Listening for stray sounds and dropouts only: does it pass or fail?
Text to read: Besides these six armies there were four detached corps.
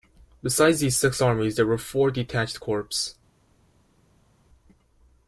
pass